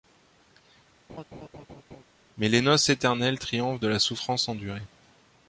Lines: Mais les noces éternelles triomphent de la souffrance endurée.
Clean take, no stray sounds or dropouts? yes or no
no